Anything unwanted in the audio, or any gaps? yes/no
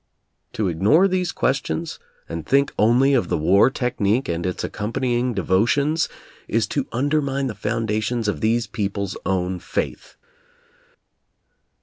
no